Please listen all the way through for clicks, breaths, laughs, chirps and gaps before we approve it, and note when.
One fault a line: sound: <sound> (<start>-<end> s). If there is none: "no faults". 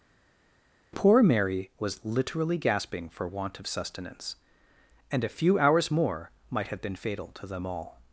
no faults